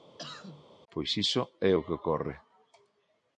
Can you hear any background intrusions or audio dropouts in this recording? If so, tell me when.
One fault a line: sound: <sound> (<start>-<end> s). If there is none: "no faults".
sound: cough (0.2-0.6 s)